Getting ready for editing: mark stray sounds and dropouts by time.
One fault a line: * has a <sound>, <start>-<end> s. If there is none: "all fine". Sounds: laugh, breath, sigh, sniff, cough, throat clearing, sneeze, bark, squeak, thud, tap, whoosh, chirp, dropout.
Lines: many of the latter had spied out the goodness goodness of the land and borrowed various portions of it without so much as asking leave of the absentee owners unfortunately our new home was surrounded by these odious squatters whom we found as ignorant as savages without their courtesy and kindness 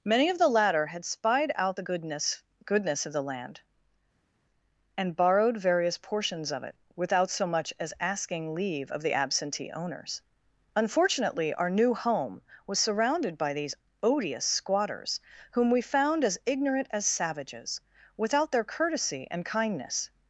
all fine